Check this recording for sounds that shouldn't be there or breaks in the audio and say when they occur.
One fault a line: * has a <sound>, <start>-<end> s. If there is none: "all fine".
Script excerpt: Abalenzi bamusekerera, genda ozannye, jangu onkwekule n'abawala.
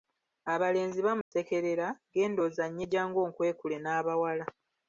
* has a dropout, 1.2-1.3 s